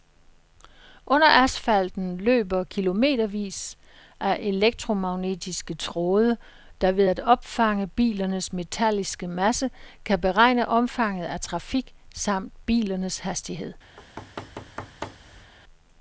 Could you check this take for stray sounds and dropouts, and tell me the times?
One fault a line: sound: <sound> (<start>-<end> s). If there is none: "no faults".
sound: thud (14.0-15.5 s)